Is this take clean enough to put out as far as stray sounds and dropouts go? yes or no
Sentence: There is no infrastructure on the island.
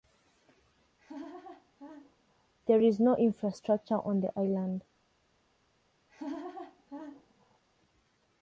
no